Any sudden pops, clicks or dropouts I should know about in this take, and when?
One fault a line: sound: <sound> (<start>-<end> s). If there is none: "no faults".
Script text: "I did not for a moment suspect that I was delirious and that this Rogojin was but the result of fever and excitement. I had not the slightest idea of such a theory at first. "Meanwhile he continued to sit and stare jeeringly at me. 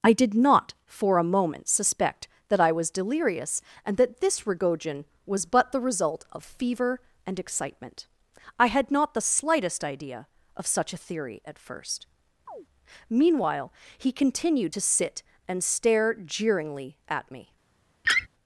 sound: chirp (12.5-12.7 s)
sound: laugh (18.0-18.3 s)